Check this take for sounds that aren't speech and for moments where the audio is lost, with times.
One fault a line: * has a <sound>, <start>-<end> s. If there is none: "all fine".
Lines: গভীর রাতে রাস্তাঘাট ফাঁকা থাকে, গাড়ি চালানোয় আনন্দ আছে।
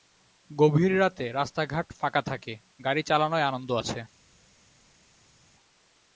all fine